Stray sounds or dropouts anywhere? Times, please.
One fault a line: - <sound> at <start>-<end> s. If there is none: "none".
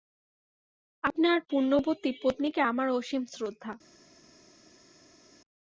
none